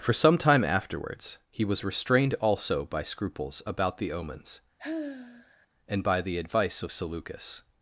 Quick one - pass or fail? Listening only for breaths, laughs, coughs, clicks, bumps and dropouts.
fail